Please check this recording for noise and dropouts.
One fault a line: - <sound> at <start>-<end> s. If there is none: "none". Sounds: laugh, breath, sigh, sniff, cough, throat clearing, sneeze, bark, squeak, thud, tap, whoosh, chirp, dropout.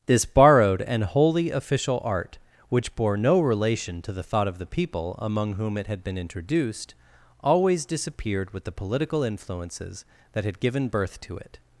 none